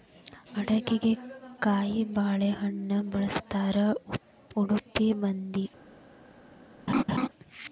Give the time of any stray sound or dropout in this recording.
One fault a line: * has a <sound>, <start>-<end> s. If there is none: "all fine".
* has a laugh, 6.9-7.3 s